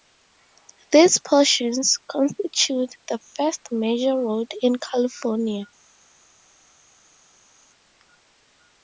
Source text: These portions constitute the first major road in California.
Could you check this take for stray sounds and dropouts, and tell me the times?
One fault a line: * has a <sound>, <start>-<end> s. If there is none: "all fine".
all fine